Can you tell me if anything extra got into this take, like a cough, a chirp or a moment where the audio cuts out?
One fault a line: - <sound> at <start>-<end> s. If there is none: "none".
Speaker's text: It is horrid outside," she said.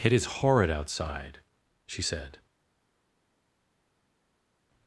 none